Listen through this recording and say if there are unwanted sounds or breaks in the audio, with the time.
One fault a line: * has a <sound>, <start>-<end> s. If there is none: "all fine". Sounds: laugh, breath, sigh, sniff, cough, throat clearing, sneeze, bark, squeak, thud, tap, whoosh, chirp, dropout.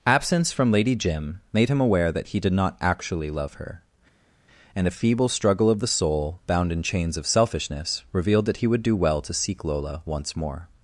all fine